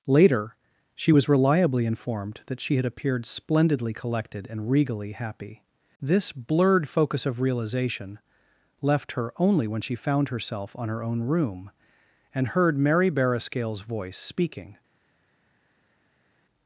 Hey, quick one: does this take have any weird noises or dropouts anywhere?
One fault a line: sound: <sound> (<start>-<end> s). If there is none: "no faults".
no faults